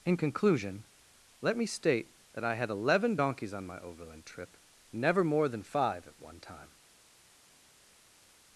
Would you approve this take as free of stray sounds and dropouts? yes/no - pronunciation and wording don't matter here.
yes